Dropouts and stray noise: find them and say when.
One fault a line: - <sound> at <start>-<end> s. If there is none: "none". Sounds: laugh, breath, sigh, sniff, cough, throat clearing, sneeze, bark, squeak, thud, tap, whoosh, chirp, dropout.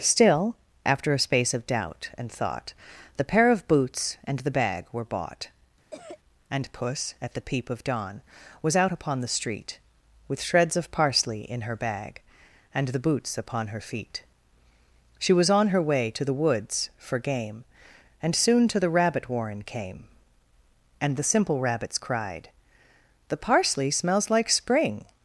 - cough at 5.9-6.2 s